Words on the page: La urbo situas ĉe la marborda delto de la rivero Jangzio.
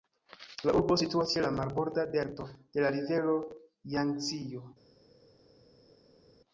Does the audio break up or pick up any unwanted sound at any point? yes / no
no